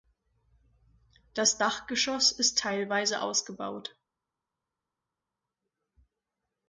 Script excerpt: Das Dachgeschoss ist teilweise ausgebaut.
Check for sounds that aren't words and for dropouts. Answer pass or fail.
pass